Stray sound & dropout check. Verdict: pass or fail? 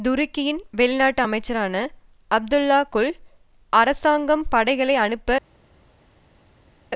pass